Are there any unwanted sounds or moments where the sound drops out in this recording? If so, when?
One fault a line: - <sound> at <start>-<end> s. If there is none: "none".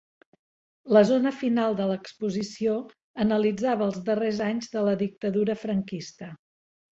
none